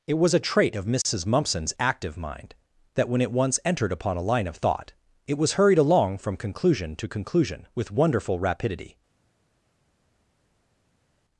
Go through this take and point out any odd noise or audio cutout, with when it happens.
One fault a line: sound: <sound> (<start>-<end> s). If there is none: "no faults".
no faults